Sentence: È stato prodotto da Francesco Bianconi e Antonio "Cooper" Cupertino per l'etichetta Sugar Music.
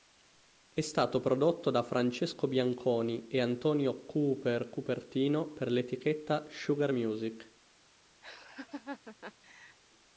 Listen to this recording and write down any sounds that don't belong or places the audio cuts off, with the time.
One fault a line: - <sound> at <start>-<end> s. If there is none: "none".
- laugh at 8.2-9.8 s